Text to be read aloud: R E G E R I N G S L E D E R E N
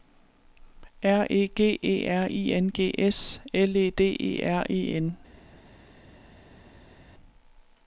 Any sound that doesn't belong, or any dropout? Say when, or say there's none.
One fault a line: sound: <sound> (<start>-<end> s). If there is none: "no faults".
no faults